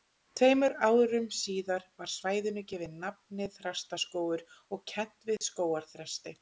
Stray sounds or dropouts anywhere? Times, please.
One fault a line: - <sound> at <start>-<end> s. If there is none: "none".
- dropout at 5.4-5.4 s